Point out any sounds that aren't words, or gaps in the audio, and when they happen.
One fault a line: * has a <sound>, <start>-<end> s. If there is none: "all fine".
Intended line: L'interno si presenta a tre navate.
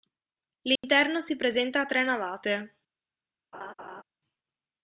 * has a dropout, 0.8-0.8 s
* has a laugh, 3.5-4.0 s